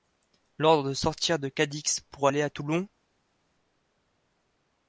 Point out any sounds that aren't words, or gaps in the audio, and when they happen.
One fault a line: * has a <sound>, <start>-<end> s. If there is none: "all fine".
all fine